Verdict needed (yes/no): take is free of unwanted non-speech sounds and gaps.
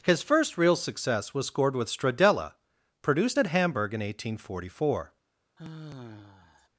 no